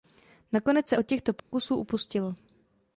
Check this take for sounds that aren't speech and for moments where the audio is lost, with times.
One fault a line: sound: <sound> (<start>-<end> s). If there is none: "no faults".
sound: dropout (1.4-1.5 s)